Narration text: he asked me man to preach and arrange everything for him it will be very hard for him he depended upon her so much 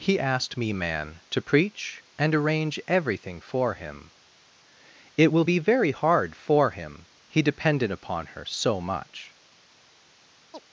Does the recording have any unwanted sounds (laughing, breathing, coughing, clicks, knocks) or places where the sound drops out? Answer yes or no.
yes